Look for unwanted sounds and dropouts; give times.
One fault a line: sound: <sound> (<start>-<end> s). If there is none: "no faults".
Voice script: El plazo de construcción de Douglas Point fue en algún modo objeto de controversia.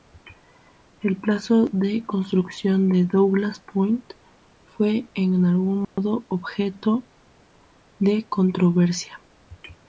sound: dropout (5.8-6.0 s)